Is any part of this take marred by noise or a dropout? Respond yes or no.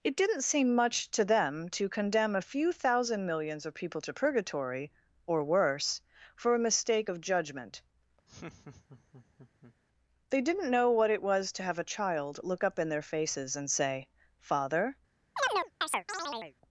yes